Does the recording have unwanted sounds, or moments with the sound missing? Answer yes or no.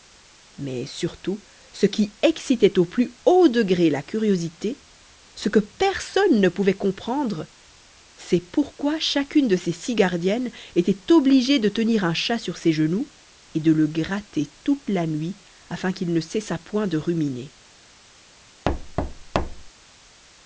yes